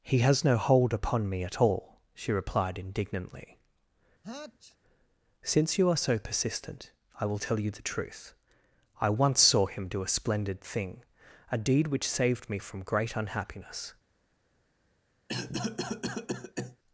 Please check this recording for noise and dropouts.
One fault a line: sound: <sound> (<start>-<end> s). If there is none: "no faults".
sound: sneeze (4.2-4.8 s)
sound: cough (15.3-16.8 s)